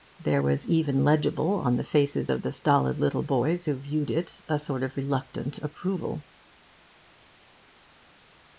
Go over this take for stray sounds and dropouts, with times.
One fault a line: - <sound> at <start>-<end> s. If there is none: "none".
none